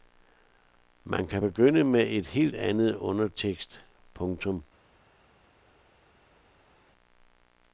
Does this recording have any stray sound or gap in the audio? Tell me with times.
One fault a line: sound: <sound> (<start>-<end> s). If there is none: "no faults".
no faults